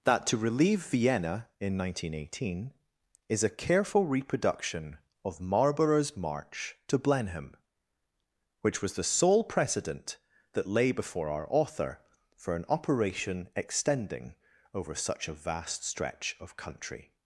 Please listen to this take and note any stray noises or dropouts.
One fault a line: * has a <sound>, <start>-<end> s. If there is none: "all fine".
all fine